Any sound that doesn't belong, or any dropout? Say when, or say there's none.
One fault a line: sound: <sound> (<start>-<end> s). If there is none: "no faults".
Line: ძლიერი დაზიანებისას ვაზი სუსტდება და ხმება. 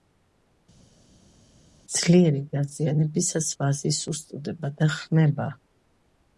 no faults